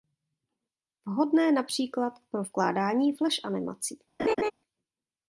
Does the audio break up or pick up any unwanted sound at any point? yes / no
yes